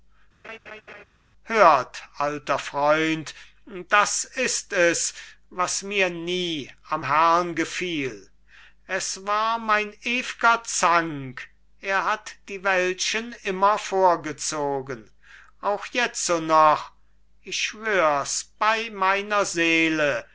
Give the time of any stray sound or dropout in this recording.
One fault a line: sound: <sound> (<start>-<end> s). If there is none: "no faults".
sound: laugh (0.4-1.0 s)